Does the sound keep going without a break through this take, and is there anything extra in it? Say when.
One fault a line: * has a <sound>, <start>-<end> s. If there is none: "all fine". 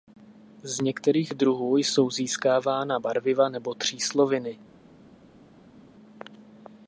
all fine